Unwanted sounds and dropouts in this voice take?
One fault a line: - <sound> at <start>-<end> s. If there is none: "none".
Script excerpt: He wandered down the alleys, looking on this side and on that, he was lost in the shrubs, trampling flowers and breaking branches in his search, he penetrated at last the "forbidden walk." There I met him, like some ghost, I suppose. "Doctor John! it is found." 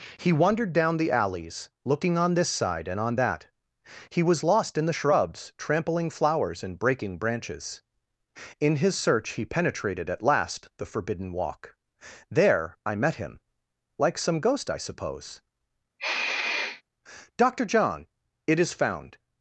- sniff at 16.0-16.8 s